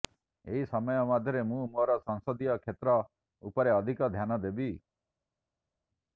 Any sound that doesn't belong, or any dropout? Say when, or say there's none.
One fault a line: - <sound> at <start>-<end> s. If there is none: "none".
none